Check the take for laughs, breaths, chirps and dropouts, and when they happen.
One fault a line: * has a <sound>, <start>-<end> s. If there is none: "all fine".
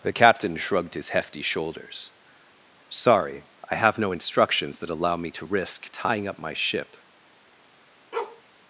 * has a bark, 8.1-8.4 s